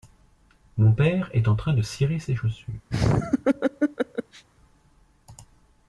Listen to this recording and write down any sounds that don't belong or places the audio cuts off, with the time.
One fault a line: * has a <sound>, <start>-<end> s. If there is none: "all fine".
* has a laugh, 2.9-4.4 s